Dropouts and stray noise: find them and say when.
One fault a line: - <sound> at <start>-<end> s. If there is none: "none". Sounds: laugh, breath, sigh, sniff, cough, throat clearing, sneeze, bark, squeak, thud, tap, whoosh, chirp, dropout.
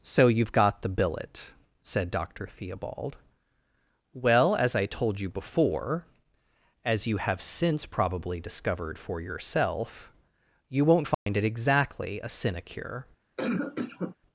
- dropout at 11.1-11.3 s
- cough at 13.4-14.2 s